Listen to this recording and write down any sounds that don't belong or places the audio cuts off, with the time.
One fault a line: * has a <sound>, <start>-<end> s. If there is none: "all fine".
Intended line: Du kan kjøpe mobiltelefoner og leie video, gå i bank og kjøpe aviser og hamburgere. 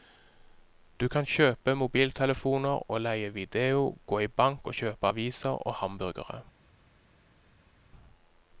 all fine